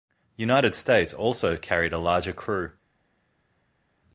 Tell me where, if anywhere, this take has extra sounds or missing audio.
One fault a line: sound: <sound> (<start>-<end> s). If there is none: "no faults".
no faults